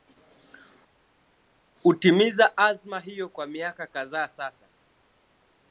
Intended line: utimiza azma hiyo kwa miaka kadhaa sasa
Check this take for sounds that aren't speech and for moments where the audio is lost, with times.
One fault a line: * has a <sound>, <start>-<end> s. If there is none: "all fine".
all fine